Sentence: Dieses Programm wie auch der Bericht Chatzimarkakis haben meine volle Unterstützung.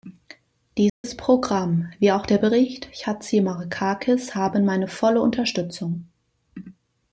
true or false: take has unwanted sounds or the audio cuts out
true